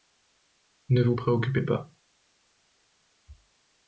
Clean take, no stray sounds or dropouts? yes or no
yes